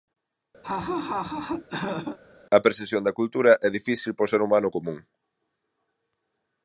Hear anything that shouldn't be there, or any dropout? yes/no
yes